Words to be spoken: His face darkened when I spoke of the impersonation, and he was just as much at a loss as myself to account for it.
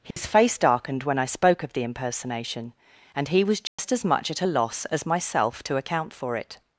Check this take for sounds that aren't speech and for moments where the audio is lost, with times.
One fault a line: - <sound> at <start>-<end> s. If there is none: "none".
- dropout at 0.1-0.2 s
- dropout at 3.7-3.8 s